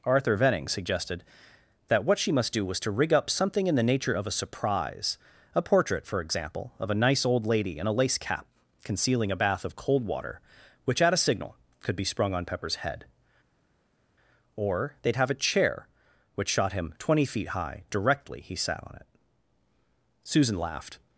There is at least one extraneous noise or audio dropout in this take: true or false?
false